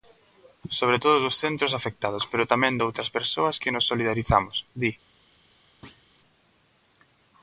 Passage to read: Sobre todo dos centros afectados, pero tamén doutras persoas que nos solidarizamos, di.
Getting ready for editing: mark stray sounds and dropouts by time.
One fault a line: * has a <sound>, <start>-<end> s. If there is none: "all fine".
* has a thud, 5.8-6.1 s